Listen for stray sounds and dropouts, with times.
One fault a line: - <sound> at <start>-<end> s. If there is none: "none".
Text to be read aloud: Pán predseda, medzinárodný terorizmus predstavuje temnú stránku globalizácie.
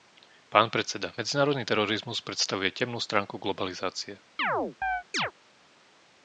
- chirp at 4.4-5.3 s